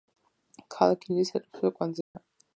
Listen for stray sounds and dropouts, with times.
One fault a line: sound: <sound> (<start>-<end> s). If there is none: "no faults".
sound: dropout (2.0-2.2 s)